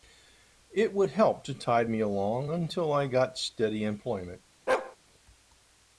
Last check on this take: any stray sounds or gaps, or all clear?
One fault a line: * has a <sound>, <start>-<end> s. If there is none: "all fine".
* has a bark, 4.7-5.0 s